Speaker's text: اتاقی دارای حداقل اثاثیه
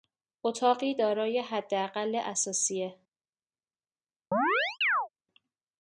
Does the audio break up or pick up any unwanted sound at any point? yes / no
yes